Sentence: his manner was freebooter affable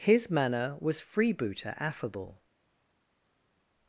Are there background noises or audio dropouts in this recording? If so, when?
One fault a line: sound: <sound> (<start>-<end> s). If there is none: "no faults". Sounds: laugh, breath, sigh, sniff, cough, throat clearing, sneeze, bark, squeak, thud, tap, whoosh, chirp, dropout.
no faults